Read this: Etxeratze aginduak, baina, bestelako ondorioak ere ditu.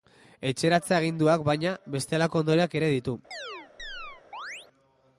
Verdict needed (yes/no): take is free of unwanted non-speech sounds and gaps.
no